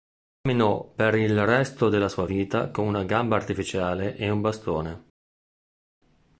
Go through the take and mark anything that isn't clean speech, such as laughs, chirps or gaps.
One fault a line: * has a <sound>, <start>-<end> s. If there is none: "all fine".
all fine